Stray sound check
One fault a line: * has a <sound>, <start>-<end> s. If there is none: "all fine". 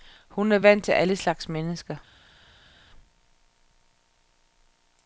all fine